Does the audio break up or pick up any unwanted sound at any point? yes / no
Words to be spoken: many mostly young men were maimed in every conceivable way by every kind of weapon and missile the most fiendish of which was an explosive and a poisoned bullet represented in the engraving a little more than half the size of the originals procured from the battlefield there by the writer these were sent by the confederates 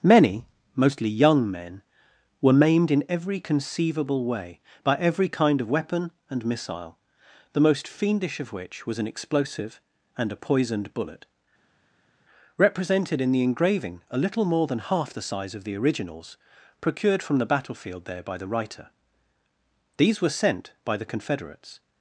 no